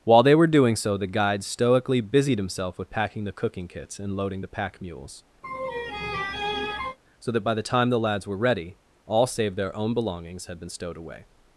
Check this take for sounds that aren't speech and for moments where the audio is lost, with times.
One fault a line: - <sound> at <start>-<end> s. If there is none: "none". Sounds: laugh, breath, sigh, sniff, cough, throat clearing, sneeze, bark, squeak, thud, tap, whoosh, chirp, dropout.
- laugh at 5.4-7.0 s